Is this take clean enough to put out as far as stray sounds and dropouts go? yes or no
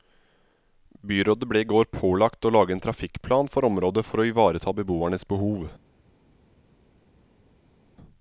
yes